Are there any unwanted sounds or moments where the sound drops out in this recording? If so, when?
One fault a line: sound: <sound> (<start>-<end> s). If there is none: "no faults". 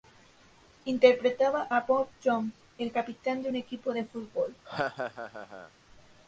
sound: laugh (4.6-5.7 s)